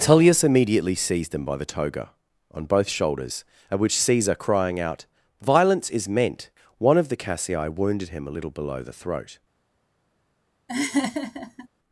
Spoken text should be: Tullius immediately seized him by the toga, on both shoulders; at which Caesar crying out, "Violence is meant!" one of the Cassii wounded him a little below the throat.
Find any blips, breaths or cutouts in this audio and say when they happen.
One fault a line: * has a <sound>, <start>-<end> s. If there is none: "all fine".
* has a laugh, 10.7-11.7 s